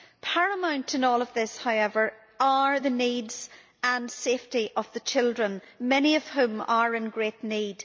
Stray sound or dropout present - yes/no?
no